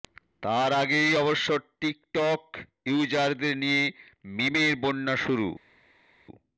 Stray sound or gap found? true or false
false